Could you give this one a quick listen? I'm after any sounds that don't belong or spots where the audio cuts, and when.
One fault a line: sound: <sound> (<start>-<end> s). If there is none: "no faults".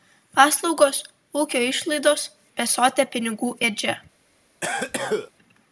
sound: cough (4.6-5.3 s)